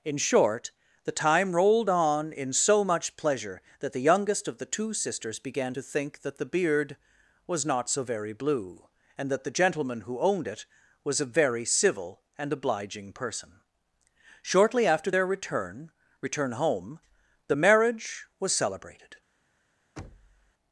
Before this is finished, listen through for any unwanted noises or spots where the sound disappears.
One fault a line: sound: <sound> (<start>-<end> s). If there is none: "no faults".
sound: thud (20.0-20.5 s)